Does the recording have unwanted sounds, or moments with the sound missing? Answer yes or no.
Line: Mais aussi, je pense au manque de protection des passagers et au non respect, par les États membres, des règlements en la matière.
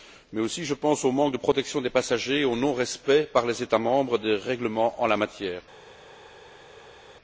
no